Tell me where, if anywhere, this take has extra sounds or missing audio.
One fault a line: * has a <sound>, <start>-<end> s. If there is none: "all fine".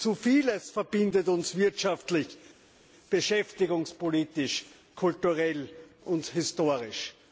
all fine